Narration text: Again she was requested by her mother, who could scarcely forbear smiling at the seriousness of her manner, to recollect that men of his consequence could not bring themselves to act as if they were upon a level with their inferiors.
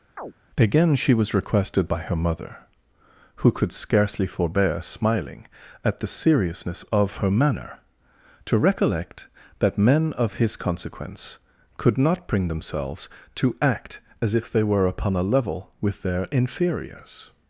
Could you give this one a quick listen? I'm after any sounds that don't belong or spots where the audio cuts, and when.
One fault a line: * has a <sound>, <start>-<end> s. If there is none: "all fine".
* has a chirp, 0.2-0.3 s